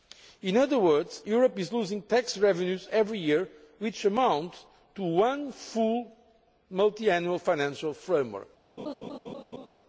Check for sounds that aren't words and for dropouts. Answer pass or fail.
fail